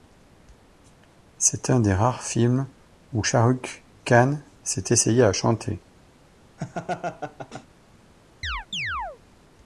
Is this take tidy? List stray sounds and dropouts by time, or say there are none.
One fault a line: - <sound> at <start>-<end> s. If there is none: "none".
- laugh at 6.6-7.7 s
- chirp at 8.4-9.2 s